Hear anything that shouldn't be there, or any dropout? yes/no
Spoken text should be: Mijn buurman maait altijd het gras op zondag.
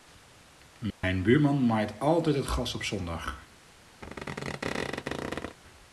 yes